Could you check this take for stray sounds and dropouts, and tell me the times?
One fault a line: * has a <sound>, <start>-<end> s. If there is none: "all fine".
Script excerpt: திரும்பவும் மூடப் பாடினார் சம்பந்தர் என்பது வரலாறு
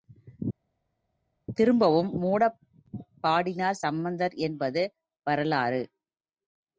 all fine